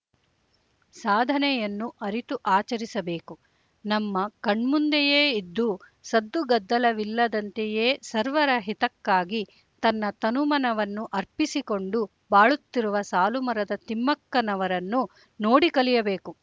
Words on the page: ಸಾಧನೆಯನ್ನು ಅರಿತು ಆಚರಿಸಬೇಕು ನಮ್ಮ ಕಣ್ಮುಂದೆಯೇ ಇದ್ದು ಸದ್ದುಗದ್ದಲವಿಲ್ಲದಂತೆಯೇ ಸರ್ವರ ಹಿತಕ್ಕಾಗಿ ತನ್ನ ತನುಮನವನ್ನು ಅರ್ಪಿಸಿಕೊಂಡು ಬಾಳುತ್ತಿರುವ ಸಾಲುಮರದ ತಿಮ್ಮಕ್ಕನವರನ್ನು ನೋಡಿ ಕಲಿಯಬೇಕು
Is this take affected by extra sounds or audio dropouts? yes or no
no